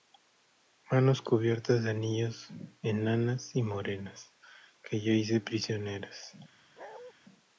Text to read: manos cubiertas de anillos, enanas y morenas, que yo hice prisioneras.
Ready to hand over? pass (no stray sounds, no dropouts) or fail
fail